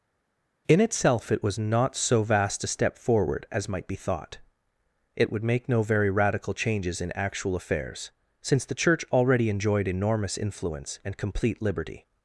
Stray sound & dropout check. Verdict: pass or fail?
pass